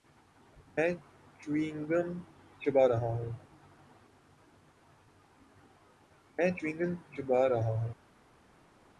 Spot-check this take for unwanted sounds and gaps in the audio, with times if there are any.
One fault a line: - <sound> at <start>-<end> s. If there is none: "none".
none